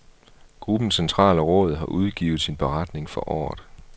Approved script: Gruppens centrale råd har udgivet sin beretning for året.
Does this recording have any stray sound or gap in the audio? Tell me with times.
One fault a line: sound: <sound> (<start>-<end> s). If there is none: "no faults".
no faults